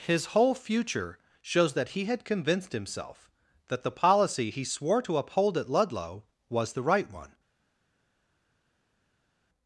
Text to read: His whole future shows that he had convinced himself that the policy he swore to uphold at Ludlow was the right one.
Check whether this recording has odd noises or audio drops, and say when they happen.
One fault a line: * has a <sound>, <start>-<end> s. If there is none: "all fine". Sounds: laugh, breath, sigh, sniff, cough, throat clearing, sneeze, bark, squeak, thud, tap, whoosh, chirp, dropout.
all fine